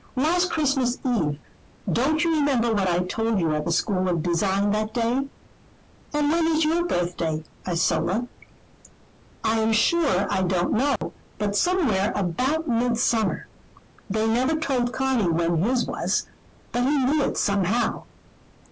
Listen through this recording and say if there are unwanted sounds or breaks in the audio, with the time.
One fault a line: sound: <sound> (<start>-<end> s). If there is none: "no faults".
sound: dropout (11.0-11.0 s)